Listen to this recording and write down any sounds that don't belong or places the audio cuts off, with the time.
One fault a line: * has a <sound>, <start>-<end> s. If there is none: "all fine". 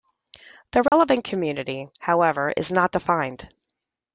* has a dropout, 0.9-0.9 s